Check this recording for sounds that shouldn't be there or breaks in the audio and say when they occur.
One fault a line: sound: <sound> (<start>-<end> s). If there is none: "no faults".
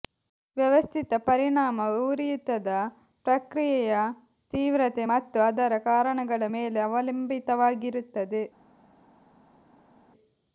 no faults